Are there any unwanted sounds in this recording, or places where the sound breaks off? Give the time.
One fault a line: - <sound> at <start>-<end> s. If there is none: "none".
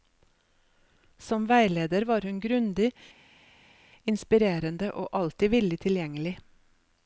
none